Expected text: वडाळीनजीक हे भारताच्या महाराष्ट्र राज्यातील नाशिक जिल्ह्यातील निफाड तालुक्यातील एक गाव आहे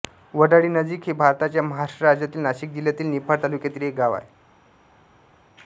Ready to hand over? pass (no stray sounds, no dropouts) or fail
pass